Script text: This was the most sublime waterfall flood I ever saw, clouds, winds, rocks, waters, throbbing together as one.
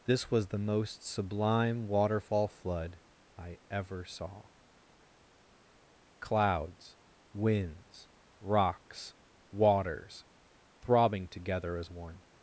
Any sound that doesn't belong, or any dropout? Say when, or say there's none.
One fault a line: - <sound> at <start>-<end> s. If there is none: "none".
none